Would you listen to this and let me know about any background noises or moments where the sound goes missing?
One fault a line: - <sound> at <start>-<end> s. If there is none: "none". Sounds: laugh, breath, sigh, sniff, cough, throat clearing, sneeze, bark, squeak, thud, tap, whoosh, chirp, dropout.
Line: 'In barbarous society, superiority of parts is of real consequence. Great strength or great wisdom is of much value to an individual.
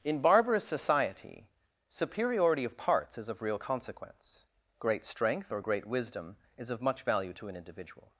none